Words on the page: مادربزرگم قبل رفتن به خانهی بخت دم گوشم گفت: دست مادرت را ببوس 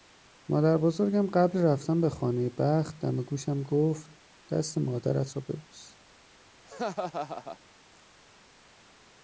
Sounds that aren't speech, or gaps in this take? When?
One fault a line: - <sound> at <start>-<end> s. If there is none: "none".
- laugh at 6.6-7.6 s